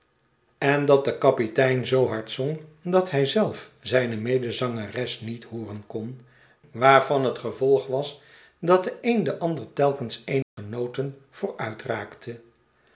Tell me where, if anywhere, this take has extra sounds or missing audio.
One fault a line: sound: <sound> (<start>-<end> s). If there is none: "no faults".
sound: dropout (10.4-10.6 s)